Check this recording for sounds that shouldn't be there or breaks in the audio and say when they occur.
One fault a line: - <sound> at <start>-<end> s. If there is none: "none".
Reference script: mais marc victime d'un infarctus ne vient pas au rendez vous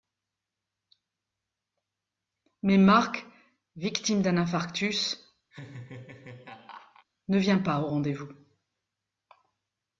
- laugh at 5.5-7.1 s